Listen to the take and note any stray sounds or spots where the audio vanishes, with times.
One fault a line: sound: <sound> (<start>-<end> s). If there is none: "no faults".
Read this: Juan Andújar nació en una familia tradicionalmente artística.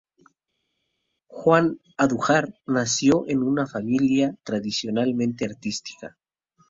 no faults